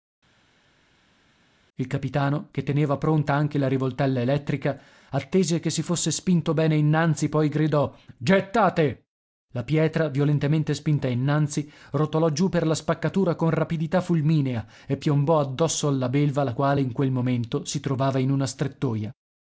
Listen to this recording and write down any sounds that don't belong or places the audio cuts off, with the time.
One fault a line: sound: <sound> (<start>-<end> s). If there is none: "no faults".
no faults